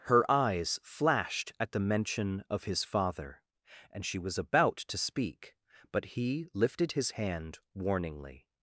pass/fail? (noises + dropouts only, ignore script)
pass